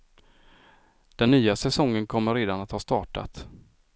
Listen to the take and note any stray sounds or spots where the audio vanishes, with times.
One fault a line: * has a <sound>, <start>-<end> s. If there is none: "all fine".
all fine